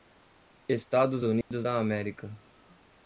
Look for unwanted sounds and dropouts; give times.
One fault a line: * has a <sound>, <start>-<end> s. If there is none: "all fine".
* has a dropout, 1.4-1.5 s